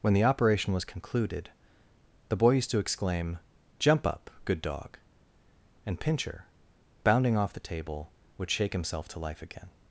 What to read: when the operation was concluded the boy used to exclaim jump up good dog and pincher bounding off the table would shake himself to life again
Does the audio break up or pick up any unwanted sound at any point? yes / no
no